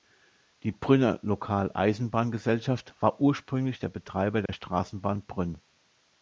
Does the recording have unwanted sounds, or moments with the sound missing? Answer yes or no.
yes